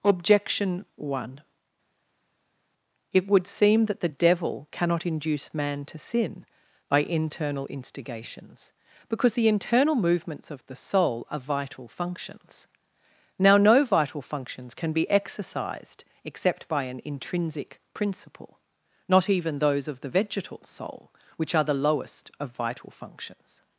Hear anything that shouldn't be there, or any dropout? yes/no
no